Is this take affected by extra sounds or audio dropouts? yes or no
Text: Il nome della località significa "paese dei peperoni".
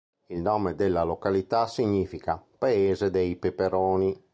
no